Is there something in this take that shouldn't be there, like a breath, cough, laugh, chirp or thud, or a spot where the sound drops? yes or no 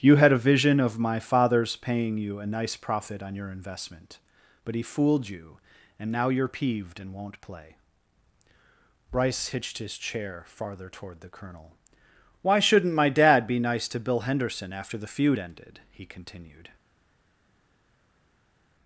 no